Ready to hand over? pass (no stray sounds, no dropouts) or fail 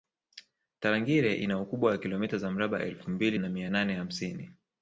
pass